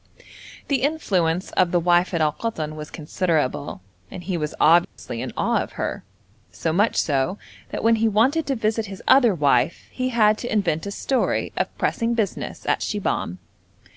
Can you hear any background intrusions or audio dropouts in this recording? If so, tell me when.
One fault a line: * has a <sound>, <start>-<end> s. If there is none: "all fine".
* has a dropout, 4.8-5.0 s